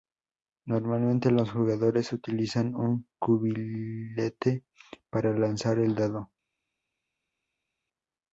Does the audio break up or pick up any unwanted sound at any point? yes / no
no